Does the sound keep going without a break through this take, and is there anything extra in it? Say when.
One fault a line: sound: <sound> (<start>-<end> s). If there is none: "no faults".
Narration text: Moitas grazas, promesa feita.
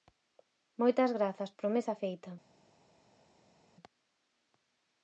no faults